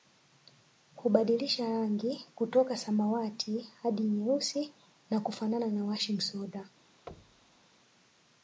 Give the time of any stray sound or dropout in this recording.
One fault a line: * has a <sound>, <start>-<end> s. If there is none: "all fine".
* has a thud, 7.1-7.6 s